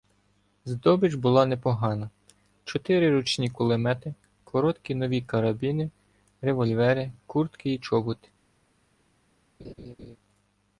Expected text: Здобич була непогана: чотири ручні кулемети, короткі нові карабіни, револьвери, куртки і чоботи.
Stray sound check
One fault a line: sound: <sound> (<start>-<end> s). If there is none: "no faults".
sound: laugh (9.6-10.2 s)